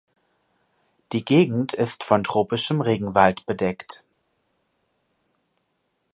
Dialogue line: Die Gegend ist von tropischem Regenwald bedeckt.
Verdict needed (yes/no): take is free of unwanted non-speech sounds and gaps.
yes